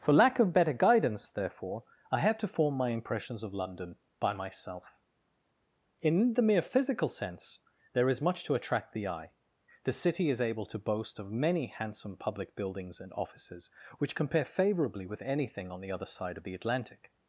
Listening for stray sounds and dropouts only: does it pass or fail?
pass